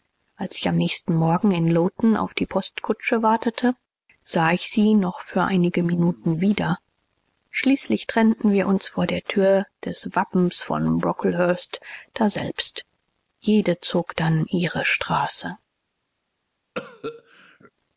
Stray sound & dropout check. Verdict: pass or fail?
fail